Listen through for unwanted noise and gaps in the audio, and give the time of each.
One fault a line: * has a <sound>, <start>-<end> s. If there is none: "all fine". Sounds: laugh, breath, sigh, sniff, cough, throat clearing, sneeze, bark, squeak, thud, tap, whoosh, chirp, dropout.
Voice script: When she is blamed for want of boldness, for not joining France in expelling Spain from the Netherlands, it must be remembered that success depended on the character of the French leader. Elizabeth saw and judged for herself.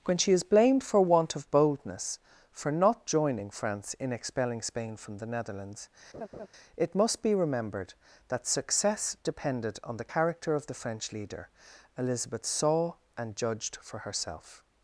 * has a laugh, 6.1-6.5 s